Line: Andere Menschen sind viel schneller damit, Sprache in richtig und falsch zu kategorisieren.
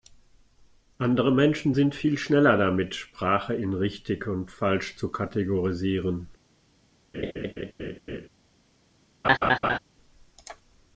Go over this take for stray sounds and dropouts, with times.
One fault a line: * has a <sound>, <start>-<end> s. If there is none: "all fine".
* has a laugh, 7.1-8.3 s
* has a laugh, 9.2-9.8 s